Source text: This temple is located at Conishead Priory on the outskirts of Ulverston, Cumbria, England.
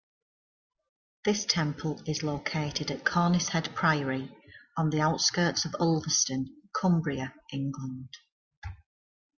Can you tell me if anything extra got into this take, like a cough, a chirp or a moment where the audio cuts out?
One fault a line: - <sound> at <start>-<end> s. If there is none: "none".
none